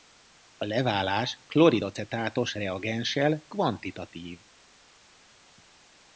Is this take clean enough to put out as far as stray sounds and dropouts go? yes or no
yes